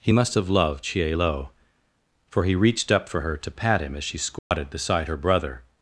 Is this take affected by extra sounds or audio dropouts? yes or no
yes